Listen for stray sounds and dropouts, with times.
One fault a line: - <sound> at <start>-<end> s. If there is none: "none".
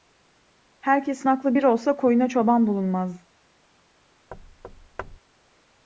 - thud at 4.3-5.2 s